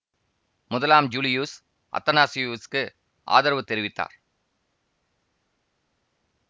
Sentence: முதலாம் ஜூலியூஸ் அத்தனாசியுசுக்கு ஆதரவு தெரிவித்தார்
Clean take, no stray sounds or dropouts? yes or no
yes